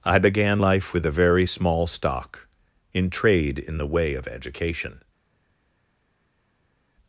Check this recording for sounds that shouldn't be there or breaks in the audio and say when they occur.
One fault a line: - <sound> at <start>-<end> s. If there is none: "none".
none